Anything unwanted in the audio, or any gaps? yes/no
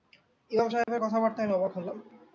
yes